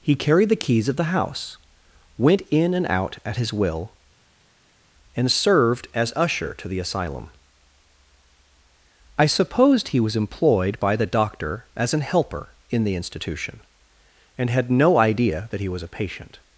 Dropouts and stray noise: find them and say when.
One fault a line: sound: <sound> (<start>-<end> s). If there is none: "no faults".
no faults